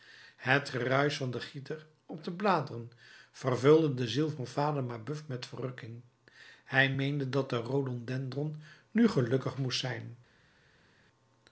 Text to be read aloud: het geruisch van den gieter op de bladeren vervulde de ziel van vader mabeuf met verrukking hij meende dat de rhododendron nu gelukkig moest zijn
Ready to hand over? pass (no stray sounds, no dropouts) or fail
pass